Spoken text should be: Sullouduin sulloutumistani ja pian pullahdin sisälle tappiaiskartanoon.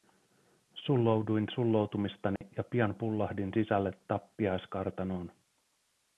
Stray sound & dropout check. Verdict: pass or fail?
fail